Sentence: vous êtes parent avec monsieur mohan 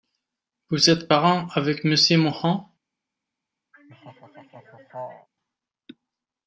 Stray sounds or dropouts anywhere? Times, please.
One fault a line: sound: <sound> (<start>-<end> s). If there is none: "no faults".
sound: laugh (3.7-5.3 s)